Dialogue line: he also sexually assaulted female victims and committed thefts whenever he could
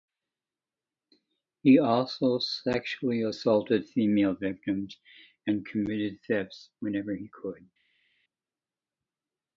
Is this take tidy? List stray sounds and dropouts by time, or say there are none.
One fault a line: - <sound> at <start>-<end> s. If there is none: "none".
none